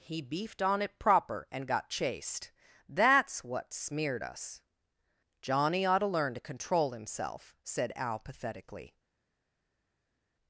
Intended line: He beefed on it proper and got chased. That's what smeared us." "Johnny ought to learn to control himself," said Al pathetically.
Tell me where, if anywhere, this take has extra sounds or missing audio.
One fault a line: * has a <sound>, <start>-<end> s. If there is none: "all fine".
all fine